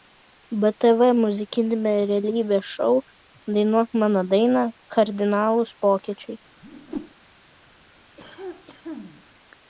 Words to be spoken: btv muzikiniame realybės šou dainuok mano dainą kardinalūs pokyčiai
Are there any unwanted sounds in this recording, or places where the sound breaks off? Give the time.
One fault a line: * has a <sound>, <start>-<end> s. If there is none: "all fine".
* has a whoosh, 6.6-7.1 s
* has a cough, 8.2-9.3 s